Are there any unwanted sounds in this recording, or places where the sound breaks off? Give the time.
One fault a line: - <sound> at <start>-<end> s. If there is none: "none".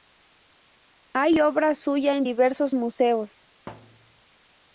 - thud at 3.7-4.2 s